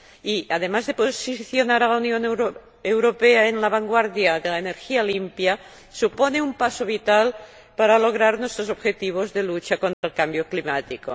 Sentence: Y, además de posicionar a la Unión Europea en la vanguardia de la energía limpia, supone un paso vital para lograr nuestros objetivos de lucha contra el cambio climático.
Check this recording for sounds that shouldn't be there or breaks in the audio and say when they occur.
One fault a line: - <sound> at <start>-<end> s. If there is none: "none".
- dropout at 9.9-10.0 s